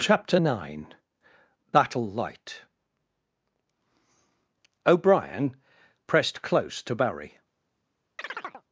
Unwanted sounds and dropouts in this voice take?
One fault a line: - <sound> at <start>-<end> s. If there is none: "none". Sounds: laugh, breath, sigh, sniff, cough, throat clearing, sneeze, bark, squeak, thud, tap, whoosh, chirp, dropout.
- chirp at 8.2-8.6 s